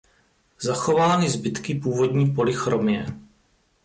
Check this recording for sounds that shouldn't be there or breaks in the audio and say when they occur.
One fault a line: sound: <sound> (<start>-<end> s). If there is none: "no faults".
no faults